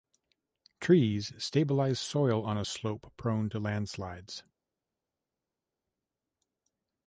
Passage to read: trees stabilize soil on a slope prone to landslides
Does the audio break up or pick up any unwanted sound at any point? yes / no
no